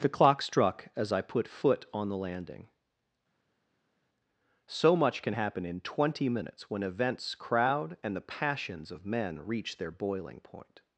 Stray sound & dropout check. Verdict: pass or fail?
pass